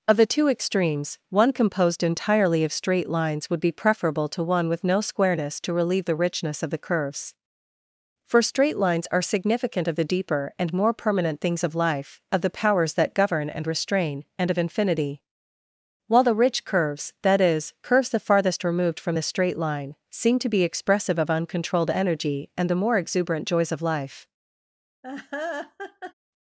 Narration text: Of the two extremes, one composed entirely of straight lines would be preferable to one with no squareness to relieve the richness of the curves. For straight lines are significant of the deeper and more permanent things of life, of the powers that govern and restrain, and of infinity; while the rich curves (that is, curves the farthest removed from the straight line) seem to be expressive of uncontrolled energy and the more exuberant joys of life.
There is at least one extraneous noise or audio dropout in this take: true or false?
true